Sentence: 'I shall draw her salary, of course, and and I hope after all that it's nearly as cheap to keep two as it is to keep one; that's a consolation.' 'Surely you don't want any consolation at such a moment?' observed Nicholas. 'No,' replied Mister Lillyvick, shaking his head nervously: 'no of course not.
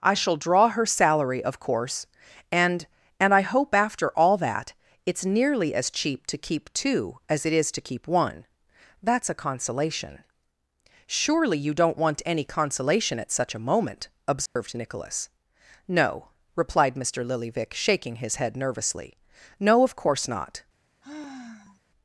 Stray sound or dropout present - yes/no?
yes